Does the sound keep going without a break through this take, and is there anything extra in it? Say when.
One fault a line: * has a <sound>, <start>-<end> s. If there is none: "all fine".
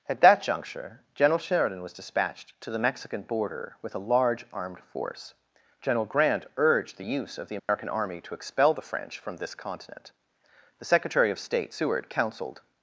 * has a dropout, 7.6-7.7 s